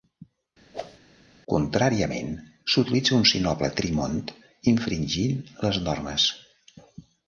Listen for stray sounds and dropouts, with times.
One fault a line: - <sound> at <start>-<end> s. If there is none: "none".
- whoosh at 0.7-1.0 s